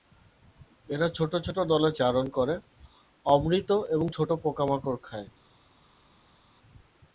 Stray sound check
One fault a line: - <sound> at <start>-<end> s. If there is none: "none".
none